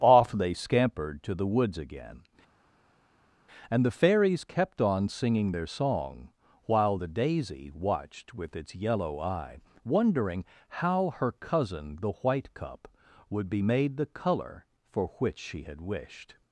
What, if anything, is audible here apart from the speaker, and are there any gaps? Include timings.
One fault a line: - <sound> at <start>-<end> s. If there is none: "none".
none